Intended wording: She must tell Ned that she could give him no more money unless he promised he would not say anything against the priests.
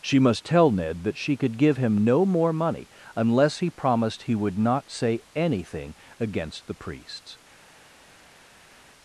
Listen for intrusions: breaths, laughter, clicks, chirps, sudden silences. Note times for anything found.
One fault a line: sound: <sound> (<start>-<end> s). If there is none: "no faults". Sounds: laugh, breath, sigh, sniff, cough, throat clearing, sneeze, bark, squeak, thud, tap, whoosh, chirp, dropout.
no faults